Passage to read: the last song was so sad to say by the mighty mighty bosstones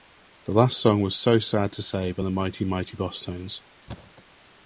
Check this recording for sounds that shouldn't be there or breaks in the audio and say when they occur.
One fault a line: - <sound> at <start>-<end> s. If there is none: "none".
- thud at 3.9-4.2 s